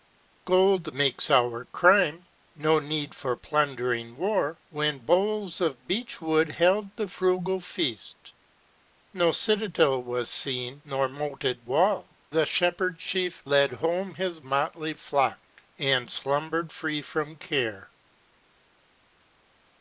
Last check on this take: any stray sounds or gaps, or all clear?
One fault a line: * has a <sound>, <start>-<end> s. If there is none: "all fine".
all fine